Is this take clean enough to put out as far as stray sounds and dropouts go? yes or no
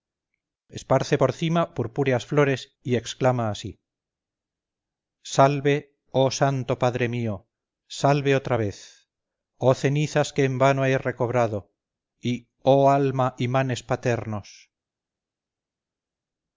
yes